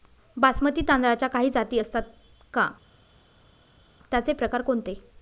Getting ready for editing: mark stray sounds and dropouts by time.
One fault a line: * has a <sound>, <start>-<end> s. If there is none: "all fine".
all fine